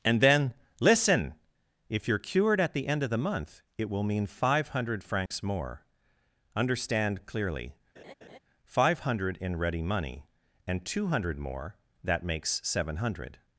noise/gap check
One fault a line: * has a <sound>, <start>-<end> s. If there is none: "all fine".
* has a dropout, 5.3-5.3 s
* has a laugh, 8.0-8.4 s